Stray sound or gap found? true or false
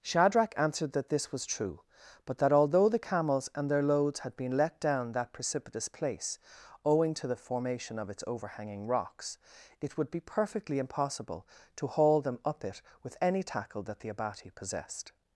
false